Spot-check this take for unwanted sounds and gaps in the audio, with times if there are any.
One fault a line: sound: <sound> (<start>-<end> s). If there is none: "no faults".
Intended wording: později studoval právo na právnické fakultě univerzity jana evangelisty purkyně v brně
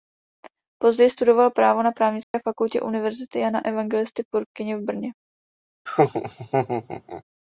sound: dropout (2.2-2.3 s)
sound: laugh (5.9-7.2 s)